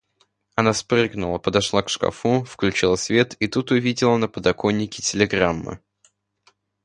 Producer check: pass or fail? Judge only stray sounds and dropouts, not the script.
pass